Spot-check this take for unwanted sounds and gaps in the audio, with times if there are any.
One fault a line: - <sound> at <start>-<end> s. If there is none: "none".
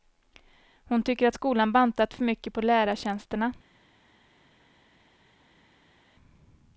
none